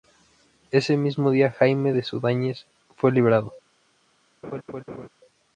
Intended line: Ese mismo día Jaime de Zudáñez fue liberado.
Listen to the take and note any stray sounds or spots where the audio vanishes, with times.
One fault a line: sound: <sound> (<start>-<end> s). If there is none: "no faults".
sound: laugh (4.4-5.1 s)